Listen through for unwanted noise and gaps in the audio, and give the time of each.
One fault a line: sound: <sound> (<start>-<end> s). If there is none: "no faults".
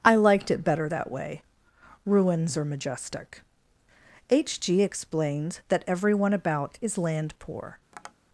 sound: tap (7.9-8.1 s)